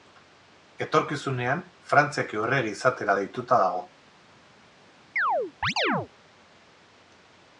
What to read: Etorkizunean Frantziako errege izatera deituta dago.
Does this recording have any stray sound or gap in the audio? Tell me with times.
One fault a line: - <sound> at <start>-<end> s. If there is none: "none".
- chirp at 5.2-6.1 s